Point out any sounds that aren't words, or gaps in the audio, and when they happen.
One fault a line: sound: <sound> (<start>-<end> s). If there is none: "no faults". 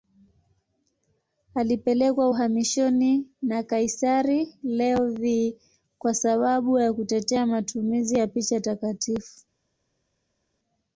no faults